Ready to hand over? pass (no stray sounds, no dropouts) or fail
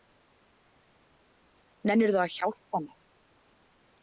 pass